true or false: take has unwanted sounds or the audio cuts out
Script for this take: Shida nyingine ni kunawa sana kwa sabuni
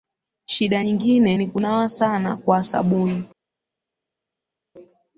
false